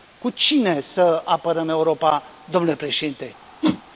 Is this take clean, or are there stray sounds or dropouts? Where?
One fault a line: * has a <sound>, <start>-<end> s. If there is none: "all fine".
* has a whoosh, 3.6-3.8 s